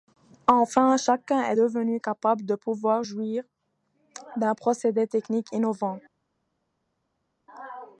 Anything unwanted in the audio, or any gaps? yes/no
no